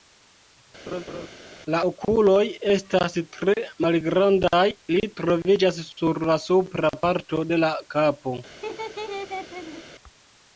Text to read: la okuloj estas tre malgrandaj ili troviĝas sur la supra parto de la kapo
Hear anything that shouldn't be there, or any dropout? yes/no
yes